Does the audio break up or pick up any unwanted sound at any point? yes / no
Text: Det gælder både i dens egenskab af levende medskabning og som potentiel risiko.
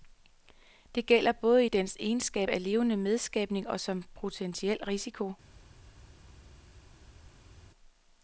no